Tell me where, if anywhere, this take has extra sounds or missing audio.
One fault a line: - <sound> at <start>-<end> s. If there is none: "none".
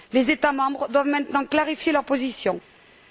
none